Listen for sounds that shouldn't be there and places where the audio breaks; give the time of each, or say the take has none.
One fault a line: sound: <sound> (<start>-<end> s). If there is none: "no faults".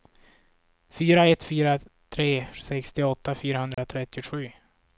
sound: dropout (3.7-3.8 s)